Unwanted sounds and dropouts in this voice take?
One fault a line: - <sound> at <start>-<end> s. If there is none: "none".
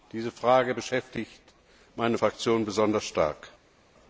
none